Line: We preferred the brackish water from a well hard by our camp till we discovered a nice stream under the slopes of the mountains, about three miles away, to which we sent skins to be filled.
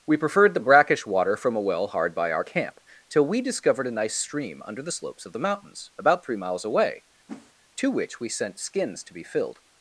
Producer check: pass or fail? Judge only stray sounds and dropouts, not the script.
fail